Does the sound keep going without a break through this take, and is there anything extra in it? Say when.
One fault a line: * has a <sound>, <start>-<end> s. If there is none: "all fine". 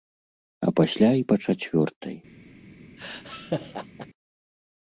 * has a laugh, 3.0-4.1 s